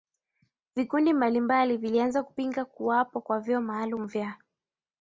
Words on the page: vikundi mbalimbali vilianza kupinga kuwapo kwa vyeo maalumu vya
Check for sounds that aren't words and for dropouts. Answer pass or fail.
pass